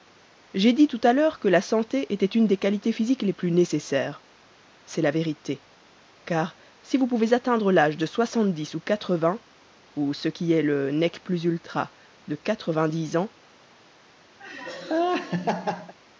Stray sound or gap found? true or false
true